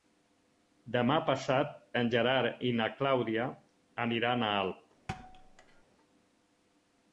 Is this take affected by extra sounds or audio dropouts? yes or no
yes